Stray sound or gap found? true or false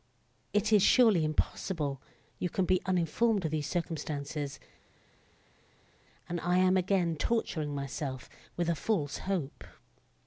false